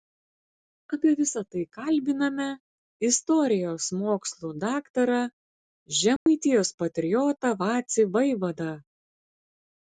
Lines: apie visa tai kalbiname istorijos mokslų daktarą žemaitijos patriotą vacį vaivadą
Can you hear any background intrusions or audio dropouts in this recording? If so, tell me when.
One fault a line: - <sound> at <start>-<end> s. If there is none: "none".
- dropout at 6.2-6.3 s